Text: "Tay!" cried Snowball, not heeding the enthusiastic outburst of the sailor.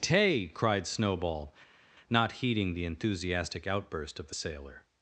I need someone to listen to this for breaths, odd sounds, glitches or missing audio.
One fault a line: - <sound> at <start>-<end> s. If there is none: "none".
none